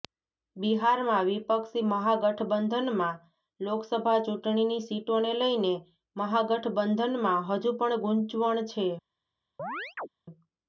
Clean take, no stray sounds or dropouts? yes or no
no